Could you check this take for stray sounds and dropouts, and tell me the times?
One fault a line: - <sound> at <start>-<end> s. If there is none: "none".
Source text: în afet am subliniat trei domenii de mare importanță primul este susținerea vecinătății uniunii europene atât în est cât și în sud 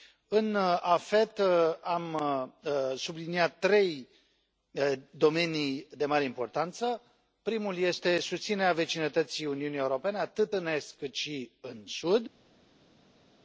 none